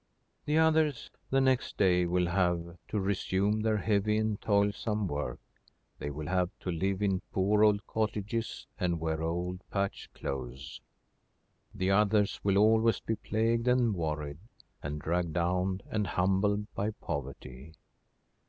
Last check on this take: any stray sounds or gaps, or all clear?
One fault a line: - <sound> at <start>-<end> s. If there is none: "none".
none